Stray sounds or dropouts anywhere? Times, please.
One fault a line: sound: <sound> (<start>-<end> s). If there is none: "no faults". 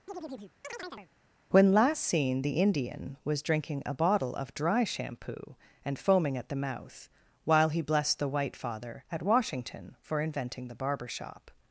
sound: chirp (0.1-1.1 s)